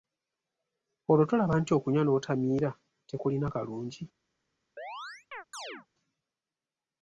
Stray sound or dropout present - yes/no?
yes